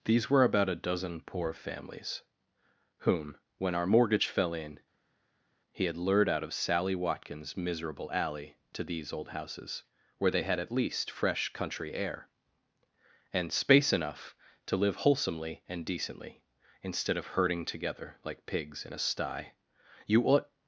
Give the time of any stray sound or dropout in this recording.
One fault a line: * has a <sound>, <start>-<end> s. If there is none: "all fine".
all fine